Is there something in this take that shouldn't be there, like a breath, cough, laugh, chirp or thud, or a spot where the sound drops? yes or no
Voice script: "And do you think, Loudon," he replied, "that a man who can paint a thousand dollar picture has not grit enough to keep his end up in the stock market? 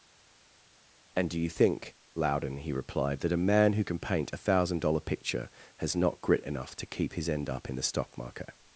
no